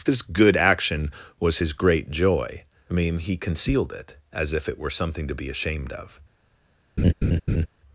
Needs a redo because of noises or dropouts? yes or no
yes